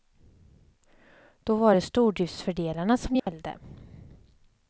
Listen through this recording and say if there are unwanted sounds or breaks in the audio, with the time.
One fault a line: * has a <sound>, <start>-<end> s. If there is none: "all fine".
* has a dropout, 3.2-3.3 s